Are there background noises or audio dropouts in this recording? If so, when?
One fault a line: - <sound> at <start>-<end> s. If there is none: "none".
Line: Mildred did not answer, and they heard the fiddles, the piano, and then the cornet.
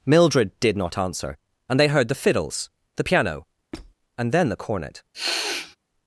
- squeak at 3.7-3.9 s
- sniff at 5.1-5.8 s